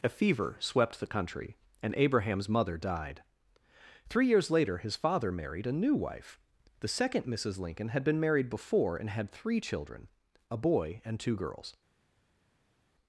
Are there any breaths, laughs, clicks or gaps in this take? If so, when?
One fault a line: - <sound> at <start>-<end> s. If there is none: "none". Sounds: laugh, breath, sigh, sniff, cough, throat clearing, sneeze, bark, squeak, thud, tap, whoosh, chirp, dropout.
none